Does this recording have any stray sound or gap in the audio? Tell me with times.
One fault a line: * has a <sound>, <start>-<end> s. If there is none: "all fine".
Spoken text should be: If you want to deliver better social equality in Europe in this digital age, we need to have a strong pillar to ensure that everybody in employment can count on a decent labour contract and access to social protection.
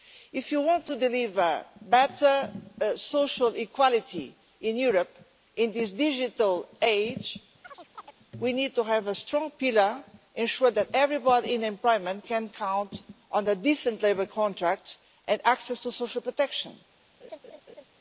* has a chirp, 7.6-8.1 s
* has a laugh, 17.2-17.8 s